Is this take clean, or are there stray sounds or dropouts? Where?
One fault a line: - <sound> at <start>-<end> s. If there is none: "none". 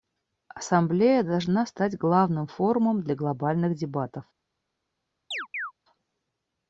- chirp at 5.3-5.7 s